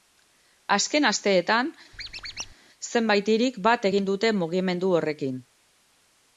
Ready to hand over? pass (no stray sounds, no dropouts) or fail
fail